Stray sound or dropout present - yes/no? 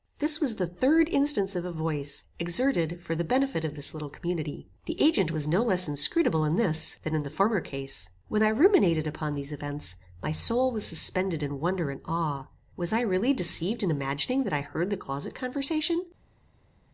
no